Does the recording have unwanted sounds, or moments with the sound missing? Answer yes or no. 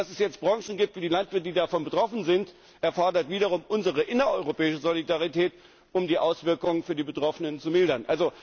no